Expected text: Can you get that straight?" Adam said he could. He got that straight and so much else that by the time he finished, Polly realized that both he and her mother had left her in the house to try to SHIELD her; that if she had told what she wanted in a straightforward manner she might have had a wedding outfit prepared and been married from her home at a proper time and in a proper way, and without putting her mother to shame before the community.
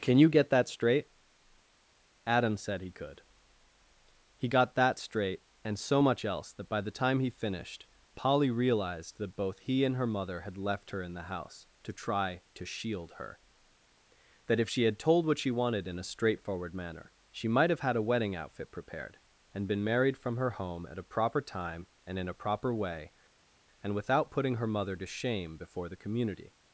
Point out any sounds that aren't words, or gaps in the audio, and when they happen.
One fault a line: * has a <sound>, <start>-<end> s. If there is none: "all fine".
all fine